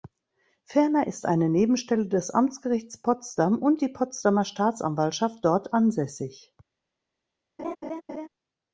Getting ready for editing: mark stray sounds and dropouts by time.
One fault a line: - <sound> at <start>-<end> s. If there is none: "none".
- laugh at 7.6-8.3 s